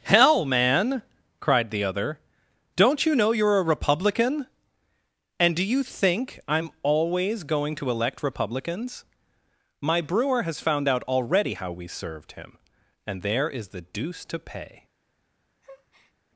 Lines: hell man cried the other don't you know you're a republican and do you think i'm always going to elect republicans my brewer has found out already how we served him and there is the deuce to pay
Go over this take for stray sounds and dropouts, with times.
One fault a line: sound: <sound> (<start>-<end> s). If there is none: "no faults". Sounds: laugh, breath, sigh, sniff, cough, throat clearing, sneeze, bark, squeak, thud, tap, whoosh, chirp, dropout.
sound: breath (15.6-16.1 s)